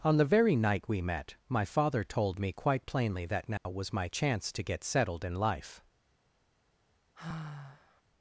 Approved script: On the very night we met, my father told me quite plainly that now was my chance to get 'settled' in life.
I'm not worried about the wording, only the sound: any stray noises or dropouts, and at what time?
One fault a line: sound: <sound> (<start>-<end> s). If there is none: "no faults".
sound: dropout (3.6-3.7 s)
sound: sigh (7.1-8.0 s)